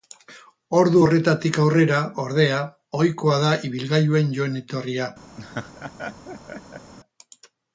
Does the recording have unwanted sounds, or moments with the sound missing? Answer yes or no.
yes